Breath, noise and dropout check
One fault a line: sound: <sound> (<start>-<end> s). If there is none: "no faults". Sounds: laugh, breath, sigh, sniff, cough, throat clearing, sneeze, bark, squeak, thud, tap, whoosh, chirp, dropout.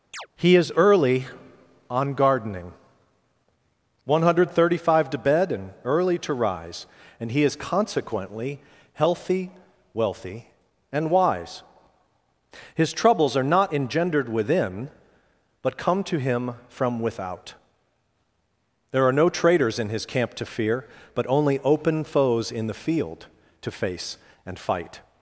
sound: chirp (0.1-0.3 s)